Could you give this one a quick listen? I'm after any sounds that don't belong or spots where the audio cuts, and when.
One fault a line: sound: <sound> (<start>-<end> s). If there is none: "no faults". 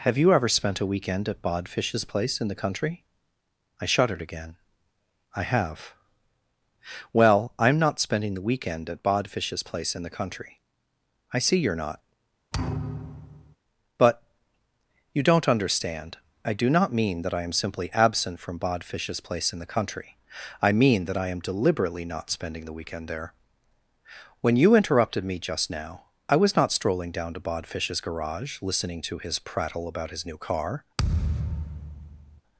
sound: thud (12.5-13.6 s)
sound: thud (31.0-32.4 s)